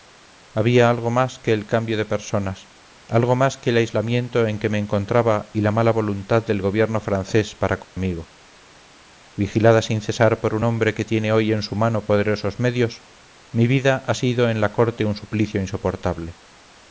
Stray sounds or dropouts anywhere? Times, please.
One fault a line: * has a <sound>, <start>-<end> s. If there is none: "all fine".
* has a dropout, 7.8-8.0 s